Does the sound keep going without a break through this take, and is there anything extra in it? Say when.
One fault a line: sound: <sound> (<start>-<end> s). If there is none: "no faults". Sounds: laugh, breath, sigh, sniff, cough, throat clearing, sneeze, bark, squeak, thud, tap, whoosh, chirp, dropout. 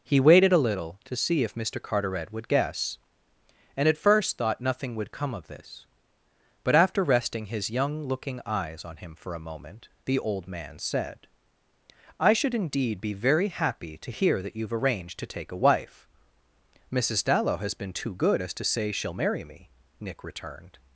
no faults